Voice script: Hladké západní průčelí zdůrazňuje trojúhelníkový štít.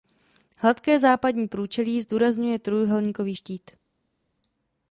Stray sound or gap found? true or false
false